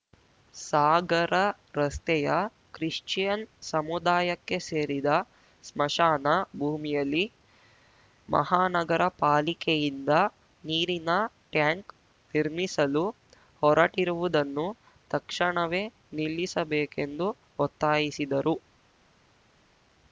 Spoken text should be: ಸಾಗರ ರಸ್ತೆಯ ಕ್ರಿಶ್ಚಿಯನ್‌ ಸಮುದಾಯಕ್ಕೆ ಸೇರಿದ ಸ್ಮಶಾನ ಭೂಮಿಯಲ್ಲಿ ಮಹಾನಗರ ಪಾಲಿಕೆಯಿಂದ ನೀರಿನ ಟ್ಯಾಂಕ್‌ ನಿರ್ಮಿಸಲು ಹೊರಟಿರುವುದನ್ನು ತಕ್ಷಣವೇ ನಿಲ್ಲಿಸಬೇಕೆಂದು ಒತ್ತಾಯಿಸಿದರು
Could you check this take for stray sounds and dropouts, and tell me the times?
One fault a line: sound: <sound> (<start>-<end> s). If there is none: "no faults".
no faults